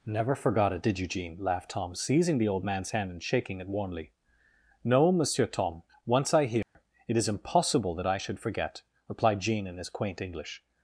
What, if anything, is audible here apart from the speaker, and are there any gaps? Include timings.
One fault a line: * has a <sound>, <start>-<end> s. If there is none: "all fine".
* has a dropout, 6.6-6.7 s